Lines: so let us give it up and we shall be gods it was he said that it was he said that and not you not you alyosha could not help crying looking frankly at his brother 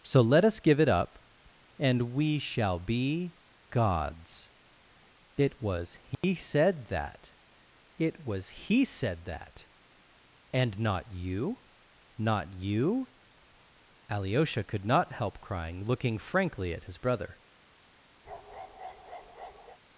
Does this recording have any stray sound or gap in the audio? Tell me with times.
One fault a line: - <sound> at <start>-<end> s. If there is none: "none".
- dropout at 6.1-6.2 s
- bark at 18.3-19.8 s